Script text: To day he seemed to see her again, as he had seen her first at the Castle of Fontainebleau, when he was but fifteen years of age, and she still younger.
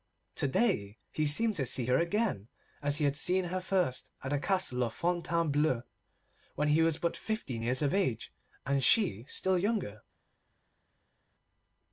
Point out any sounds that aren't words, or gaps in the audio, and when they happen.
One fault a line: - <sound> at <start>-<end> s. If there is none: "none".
none